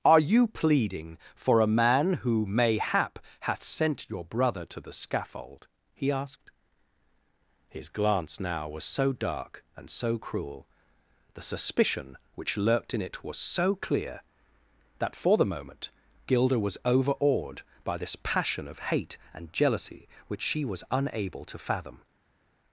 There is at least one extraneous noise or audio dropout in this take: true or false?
false